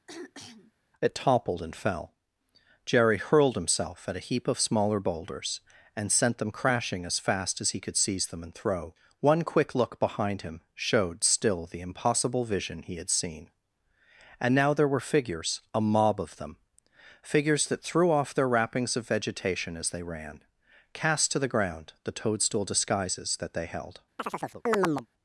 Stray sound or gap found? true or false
true